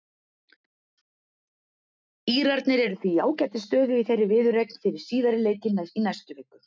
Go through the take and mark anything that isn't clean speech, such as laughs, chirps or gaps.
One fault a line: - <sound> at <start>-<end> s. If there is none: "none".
none